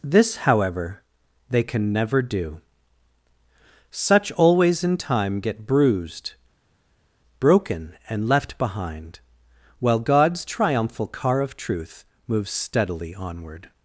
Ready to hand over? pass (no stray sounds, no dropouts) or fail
pass